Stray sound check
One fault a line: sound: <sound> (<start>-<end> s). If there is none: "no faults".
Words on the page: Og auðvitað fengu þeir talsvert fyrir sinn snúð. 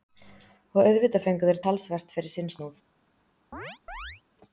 sound: chirp (3.5-4.2 s)